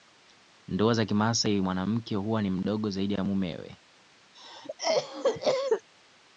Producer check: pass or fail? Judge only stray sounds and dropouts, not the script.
fail